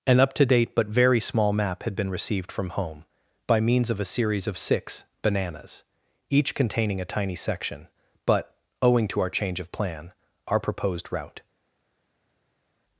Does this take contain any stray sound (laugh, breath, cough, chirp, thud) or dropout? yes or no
no